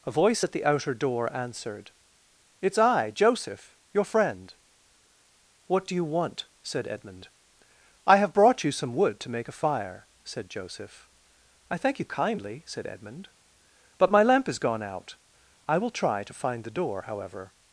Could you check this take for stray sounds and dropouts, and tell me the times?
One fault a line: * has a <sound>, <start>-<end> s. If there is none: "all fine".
all fine